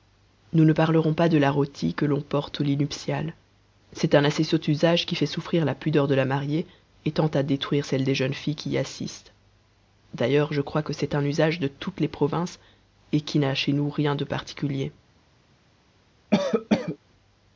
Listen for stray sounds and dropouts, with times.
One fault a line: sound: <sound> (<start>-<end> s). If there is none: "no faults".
sound: cough (16.3-17.0 s)